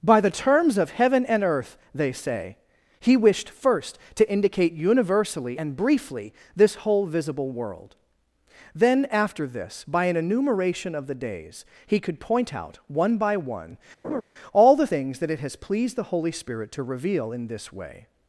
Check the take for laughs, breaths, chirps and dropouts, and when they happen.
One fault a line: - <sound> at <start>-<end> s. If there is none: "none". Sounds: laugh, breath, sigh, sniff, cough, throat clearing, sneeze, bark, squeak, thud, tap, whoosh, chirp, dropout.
- laugh at 14.0-14.2 s